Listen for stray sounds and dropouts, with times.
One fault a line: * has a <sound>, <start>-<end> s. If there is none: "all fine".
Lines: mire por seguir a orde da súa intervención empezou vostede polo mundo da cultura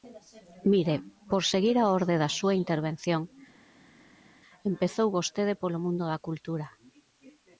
all fine